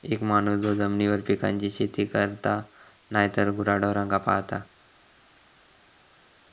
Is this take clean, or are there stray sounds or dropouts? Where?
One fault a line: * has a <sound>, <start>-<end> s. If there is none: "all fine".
all fine